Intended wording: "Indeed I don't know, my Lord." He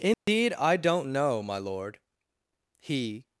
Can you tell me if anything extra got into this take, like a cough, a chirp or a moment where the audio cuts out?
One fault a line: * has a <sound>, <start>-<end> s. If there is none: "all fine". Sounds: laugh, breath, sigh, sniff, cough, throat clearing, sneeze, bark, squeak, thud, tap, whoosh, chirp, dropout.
* has a dropout, 0.1-0.3 s